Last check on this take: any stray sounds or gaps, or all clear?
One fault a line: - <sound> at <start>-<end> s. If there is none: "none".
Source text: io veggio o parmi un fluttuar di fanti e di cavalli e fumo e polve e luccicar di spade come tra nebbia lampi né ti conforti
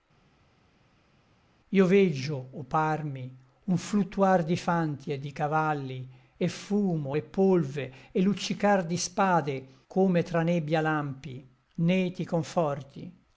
none